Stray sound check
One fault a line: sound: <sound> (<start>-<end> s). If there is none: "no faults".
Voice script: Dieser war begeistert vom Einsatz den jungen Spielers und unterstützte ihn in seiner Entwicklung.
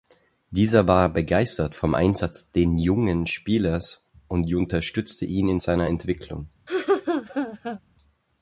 sound: laugh (6.7-7.8 s)